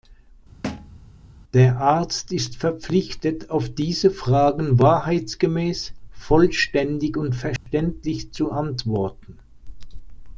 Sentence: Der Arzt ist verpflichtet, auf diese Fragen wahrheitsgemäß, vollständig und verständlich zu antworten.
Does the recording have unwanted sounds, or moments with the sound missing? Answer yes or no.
yes